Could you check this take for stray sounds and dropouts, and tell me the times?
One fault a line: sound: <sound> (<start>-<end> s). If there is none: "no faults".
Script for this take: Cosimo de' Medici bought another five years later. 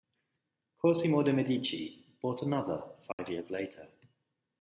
sound: dropout (3.1-3.2 s)